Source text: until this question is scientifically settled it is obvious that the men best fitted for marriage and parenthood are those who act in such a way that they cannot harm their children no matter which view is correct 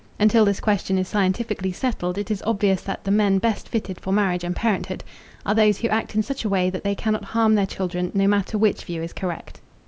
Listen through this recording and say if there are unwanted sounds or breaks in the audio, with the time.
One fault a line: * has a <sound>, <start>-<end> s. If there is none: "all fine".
all fine